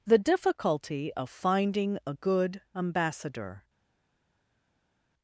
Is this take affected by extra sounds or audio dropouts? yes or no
no